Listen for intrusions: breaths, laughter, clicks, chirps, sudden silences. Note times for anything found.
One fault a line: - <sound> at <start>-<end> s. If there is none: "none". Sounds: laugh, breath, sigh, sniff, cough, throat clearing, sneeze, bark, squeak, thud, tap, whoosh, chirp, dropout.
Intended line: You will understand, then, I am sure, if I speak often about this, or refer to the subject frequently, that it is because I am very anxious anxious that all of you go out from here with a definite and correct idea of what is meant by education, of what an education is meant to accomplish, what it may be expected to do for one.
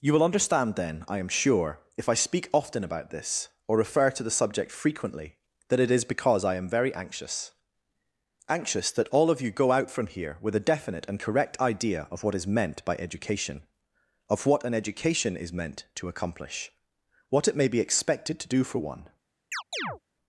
- chirp at 19.5-20.0 s